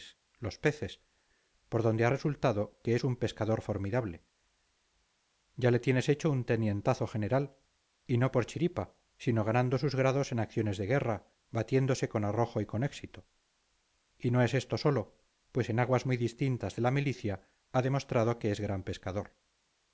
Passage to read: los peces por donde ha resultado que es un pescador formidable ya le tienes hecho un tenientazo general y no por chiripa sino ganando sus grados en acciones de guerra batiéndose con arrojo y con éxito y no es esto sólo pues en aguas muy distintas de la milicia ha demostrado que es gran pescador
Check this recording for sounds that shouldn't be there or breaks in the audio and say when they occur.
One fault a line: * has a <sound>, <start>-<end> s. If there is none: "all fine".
all fine